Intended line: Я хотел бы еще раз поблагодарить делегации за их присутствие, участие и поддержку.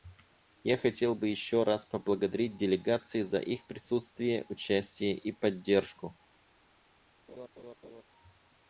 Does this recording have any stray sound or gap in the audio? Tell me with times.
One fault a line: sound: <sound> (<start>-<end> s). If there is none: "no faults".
sound: laugh (7.3-8.0 s)